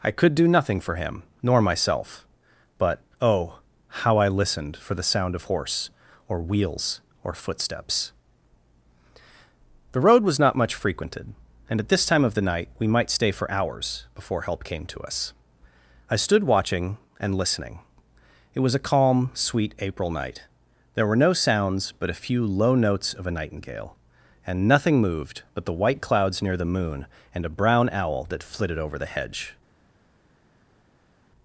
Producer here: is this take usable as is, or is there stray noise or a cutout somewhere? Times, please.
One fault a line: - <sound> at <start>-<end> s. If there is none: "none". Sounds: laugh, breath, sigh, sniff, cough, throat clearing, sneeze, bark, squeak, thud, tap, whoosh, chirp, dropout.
none